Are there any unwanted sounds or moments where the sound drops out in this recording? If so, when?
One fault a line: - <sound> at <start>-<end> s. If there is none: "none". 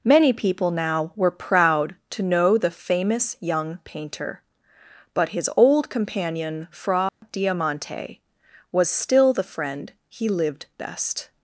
- dropout at 7.1-7.2 s